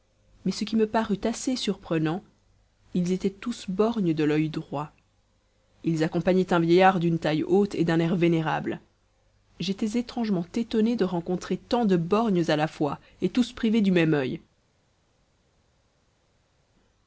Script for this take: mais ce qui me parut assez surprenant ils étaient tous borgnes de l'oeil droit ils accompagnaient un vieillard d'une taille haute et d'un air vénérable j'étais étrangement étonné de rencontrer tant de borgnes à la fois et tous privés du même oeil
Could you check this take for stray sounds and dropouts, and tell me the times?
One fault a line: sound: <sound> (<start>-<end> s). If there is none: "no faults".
no faults